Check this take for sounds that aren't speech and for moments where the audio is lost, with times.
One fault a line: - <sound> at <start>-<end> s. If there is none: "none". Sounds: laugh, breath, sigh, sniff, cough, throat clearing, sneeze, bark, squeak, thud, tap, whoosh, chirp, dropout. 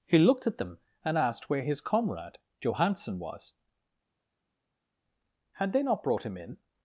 none